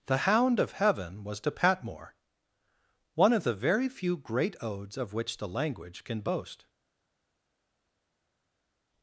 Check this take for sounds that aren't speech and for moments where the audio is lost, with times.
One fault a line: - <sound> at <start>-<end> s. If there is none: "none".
none